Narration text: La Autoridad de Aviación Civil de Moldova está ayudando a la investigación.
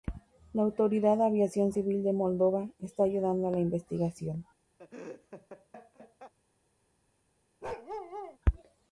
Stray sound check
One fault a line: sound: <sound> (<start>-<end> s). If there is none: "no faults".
sound: laugh (4.8-6.3 s)
sound: bark (7.6-8.4 s)